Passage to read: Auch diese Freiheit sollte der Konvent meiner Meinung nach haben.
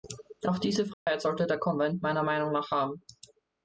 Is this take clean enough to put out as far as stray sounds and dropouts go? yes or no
no